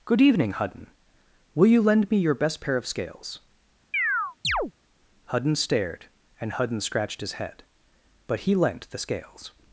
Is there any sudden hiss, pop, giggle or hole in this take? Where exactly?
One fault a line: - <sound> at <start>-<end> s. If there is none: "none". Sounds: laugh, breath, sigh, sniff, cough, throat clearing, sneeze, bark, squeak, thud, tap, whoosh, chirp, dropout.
- chirp at 3.9-4.7 s